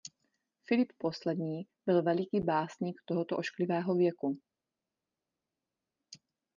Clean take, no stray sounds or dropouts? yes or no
yes